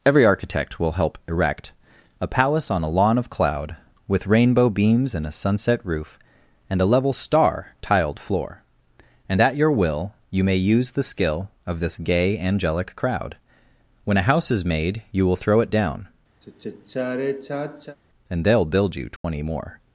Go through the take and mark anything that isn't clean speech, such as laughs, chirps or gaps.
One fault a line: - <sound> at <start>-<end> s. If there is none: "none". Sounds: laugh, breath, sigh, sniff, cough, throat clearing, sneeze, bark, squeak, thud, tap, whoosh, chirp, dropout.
- sigh at 16.4-18.0 s
- dropout at 19.2-19.2 s